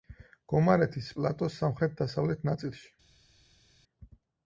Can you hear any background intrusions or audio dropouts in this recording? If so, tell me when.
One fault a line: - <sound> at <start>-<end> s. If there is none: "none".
none